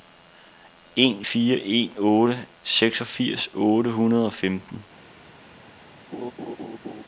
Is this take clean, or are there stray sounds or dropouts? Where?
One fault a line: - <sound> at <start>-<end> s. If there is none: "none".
- laugh at 6.1-7.0 s